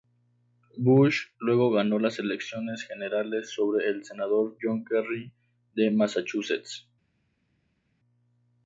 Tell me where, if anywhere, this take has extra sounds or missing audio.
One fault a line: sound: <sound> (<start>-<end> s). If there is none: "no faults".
no faults